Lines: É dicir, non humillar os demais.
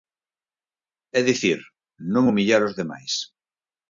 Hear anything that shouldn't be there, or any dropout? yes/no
no